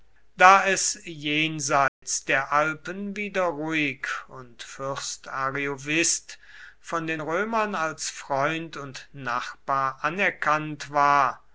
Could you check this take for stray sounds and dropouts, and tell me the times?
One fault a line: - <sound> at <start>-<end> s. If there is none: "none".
- dropout at 1.9-2.0 s